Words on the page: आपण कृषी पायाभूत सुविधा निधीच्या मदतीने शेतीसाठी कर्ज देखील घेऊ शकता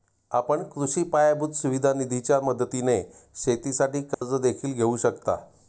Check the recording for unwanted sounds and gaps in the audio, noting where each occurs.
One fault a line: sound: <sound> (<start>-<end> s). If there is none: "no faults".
sound: dropout (4.1-4.2 s)